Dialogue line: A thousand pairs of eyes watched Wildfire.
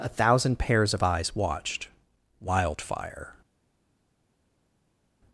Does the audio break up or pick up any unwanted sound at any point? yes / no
no